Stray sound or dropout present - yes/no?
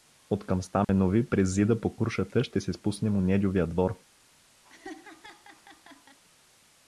yes